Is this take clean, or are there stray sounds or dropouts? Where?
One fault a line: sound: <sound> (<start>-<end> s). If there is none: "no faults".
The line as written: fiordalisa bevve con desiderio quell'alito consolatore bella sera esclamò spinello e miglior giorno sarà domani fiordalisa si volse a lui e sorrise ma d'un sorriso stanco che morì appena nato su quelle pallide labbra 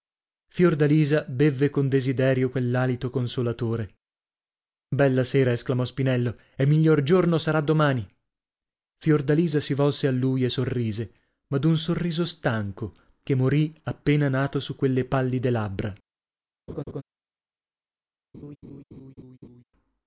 sound: laugh (16.7-17.0 s)
sound: laugh (18.3-19.6 s)